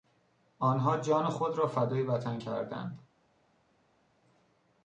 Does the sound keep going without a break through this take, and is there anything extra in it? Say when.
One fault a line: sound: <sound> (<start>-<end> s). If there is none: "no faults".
no faults